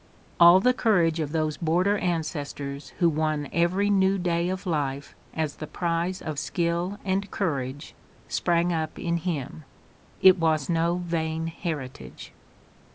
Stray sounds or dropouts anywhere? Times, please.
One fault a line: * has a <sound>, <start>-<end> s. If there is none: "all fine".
all fine